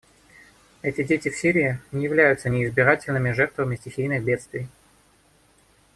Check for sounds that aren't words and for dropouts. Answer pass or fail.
pass